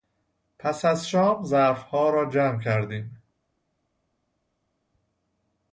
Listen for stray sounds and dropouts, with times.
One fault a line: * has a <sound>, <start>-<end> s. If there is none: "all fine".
all fine